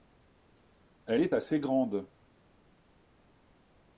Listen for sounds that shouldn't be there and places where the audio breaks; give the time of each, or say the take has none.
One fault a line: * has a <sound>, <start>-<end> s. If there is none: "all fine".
all fine